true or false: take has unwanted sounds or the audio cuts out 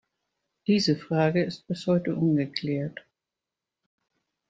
false